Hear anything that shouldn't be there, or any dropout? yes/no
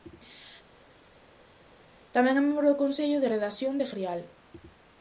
no